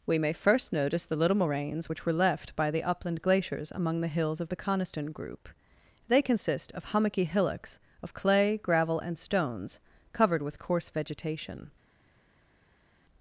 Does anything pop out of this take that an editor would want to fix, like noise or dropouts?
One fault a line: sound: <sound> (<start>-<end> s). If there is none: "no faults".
no faults